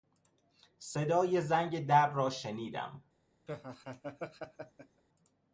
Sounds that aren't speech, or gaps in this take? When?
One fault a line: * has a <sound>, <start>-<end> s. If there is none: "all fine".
* has a laugh, 3.5-5.0 s